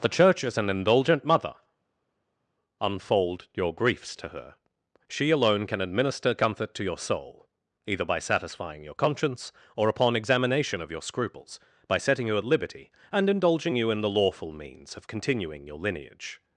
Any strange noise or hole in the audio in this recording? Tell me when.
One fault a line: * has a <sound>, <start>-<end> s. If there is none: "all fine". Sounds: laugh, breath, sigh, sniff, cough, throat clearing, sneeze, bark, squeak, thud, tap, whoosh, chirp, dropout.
all fine